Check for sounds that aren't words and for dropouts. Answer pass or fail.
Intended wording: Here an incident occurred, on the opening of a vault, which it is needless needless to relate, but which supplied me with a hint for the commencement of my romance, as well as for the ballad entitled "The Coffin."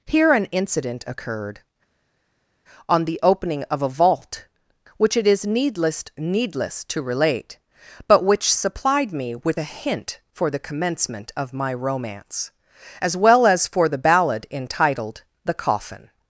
pass